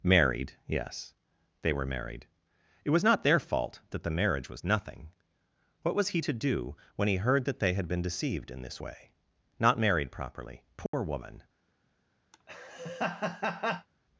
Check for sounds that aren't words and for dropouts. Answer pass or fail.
fail